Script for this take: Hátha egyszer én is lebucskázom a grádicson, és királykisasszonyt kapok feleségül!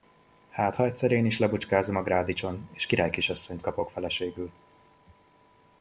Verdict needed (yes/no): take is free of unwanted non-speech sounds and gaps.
yes